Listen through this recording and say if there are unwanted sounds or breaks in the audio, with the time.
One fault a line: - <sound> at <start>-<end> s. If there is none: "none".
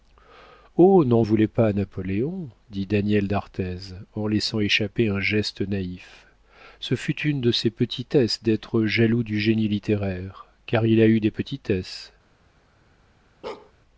- bark at 13.4-13.7 s